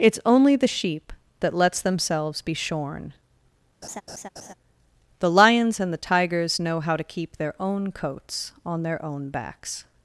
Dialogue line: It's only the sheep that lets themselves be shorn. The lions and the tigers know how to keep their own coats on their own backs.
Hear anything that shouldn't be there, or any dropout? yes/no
yes